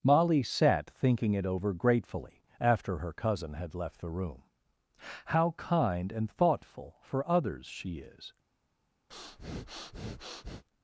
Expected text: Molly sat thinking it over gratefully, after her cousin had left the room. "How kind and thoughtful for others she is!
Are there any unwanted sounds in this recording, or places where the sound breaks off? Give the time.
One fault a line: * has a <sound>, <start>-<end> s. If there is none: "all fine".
* has a breath, 9.1-10.6 s